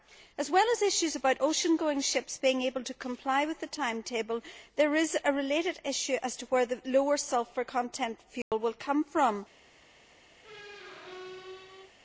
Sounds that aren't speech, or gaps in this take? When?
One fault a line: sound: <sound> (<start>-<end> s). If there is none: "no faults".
sound: dropout (8.4-8.5 s)
sound: squeak (10.4-11.9 s)